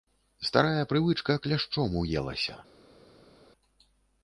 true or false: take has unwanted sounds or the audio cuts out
false